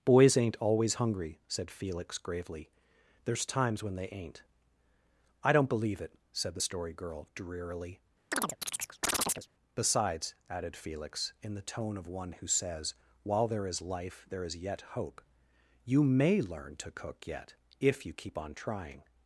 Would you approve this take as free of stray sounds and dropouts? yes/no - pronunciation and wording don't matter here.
no